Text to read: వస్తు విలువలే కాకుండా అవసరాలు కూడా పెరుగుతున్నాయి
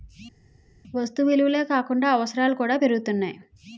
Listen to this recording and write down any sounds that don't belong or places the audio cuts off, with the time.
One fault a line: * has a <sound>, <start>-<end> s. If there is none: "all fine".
all fine